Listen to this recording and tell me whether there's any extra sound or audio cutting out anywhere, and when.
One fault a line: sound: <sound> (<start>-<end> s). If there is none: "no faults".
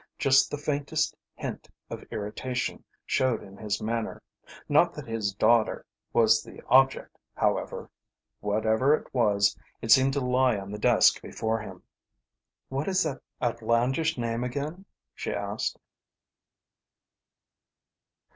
no faults